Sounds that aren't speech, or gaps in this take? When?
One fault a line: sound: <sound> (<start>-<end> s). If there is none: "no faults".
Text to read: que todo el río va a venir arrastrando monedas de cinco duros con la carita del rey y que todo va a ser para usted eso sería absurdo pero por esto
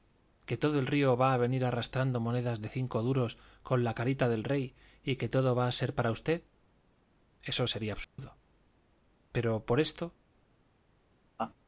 sound: dropout (8.0-8.2 s)
sound: laugh (11.4-11.5 s)